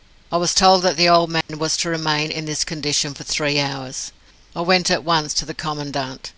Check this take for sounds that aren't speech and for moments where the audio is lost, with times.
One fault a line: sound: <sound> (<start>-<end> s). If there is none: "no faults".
sound: dropout (1.4-1.5 s)